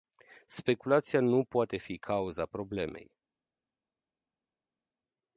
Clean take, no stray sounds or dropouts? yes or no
yes